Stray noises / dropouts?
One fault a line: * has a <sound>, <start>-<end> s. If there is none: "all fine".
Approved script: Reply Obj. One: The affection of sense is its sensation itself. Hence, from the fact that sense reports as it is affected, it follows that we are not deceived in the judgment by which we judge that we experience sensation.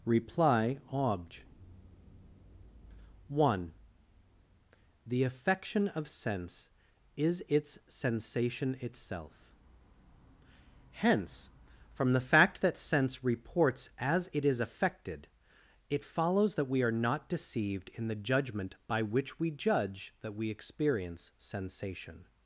all fine